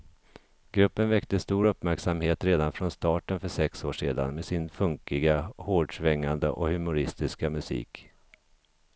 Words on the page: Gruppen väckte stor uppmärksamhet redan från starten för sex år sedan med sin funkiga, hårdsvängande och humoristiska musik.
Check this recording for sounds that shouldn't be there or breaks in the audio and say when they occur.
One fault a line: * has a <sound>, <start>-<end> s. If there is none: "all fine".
all fine